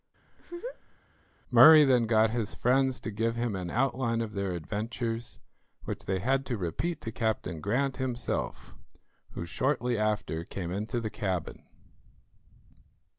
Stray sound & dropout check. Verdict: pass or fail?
fail